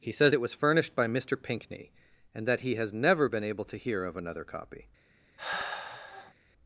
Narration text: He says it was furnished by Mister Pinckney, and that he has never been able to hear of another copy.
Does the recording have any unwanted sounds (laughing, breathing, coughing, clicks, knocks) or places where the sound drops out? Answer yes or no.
yes